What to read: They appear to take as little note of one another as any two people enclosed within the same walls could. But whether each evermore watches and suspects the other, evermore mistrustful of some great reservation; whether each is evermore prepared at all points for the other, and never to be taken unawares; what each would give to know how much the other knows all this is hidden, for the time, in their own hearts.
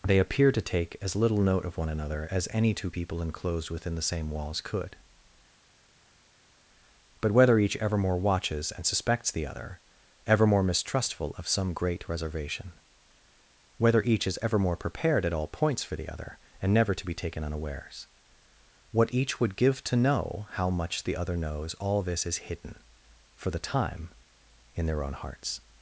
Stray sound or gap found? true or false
false